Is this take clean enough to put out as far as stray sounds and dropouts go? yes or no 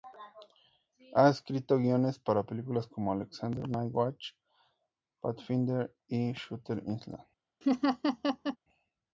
no